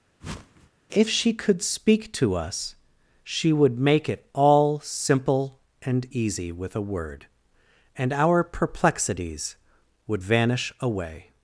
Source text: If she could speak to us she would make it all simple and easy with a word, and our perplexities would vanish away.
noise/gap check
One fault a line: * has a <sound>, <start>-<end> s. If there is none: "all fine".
* has a whoosh, 0.2-0.7 s